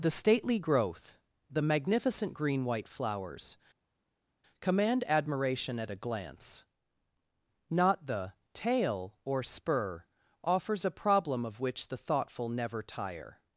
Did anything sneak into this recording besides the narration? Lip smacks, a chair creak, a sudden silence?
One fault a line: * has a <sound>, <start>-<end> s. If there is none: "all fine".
all fine